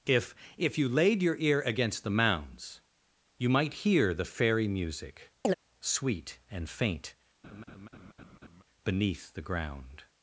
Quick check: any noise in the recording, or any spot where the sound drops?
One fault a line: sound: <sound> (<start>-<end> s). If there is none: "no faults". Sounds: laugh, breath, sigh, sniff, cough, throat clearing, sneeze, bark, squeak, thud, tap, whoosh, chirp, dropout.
sound: chirp (5.4-5.5 s)
sound: laugh (7.4-8.6 s)